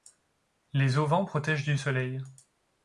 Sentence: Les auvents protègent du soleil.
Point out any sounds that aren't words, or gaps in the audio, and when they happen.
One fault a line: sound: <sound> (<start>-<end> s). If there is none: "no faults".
no faults